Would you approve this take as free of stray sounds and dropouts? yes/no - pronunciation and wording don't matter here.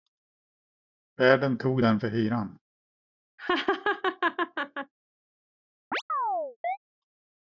no